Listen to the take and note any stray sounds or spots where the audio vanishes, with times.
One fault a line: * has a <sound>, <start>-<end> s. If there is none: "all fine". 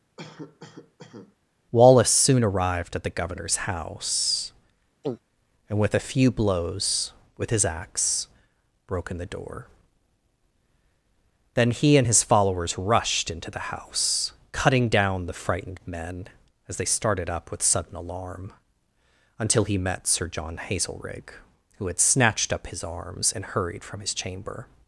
* has a cough, 0.2-1.4 s
* has a throat clearing, 5.0-5.2 s